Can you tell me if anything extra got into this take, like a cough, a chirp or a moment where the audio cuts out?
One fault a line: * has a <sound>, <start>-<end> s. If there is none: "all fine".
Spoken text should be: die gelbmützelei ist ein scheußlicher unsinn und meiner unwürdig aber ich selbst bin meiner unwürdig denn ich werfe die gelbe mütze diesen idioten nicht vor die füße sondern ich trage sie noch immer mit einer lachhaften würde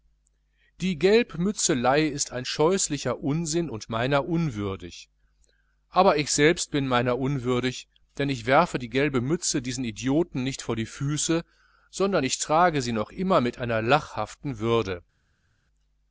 all fine